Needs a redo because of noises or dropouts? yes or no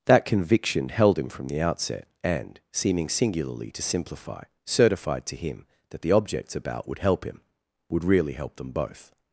no